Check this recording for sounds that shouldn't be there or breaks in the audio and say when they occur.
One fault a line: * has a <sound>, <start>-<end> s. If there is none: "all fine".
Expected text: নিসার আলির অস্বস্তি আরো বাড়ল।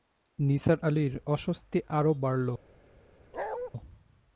* has a bark, 3.3-3.7 s